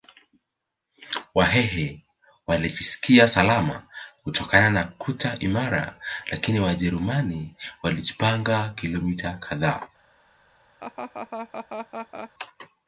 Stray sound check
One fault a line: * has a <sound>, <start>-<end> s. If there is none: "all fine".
* has a laugh, 10.8-12.3 s